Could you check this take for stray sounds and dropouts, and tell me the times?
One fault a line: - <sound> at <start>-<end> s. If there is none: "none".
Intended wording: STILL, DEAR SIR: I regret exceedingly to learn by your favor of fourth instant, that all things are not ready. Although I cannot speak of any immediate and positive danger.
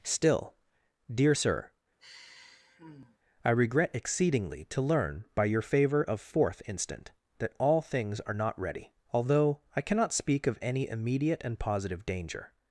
- sigh at 2.0-3.2 s